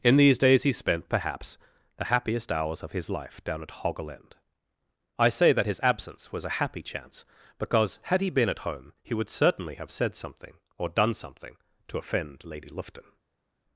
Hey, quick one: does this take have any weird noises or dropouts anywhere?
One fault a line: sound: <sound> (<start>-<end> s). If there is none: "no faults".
no faults